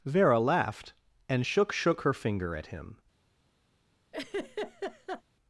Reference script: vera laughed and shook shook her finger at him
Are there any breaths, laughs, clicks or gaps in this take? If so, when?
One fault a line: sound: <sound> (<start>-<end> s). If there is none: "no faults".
sound: laugh (4.1-5.2 s)